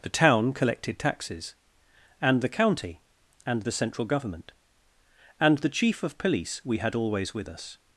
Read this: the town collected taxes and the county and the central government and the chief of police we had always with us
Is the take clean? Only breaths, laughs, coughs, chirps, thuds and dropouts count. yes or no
yes